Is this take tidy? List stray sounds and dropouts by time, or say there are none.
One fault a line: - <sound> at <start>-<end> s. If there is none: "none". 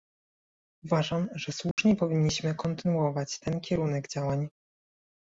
- dropout at 1.7-1.8 s